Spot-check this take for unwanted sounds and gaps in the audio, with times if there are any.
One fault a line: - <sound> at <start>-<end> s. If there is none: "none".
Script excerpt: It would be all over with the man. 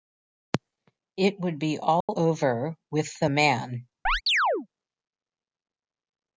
- dropout at 2.0-2.1 s
- chirp at 4.1-4.7 s